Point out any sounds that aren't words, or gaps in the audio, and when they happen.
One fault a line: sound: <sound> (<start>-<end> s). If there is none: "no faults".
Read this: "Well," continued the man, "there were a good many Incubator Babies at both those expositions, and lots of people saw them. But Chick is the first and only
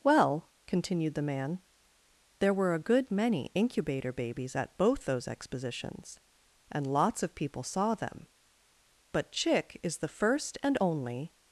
no faults